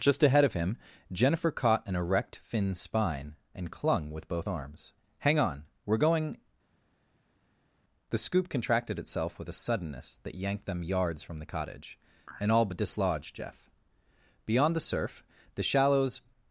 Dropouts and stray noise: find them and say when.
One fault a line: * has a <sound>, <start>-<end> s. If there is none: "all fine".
all fine